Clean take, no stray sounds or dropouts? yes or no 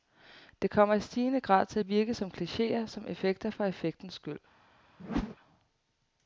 no